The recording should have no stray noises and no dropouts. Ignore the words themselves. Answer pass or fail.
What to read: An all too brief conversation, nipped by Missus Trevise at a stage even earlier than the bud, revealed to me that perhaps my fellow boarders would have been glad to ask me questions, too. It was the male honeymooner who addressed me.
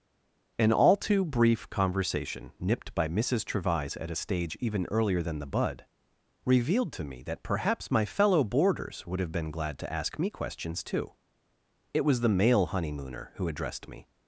pass